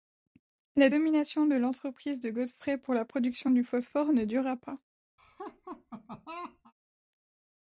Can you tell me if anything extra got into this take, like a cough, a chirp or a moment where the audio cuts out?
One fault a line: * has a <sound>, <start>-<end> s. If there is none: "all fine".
* has a laugh, 5.2-6.7 s